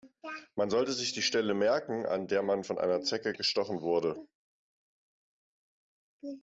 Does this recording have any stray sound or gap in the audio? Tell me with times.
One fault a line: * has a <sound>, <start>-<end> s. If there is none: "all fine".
all fine